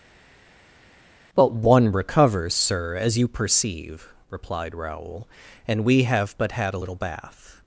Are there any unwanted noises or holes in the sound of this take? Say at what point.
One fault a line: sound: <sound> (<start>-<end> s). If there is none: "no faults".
no faults